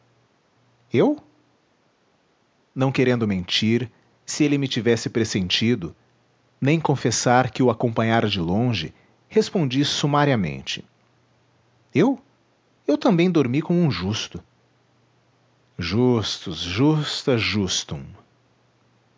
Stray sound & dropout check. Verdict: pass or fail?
pass